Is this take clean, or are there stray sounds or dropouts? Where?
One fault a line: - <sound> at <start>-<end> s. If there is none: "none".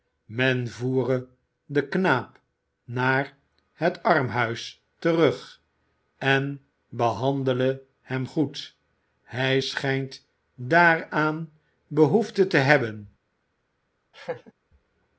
- laugh at 14.1-14.5 s